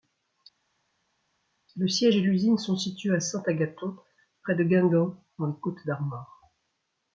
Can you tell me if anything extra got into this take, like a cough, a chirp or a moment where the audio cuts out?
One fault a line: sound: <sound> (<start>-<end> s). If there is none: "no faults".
no faults